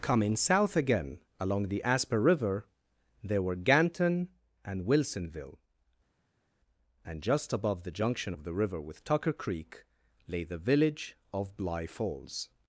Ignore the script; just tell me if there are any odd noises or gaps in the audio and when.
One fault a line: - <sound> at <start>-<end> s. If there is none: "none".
none